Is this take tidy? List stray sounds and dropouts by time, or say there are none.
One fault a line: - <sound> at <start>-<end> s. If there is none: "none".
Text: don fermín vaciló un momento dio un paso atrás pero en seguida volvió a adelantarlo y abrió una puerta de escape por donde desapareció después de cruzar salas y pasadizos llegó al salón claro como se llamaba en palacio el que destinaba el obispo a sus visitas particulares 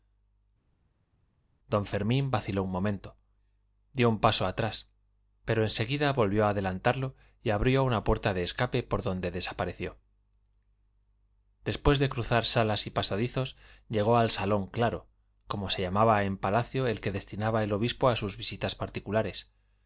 none